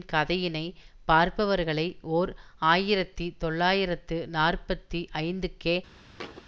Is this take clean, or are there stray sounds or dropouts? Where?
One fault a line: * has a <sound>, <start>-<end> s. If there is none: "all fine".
* has a thud, 6.2-6.4 s